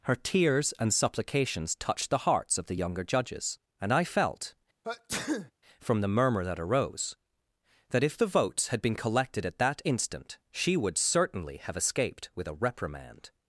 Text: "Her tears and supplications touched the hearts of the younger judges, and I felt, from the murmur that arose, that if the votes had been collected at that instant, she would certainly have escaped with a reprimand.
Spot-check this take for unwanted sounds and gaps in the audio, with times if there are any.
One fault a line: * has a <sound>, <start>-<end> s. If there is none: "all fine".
* has a sneeze, 4.8-5.5 s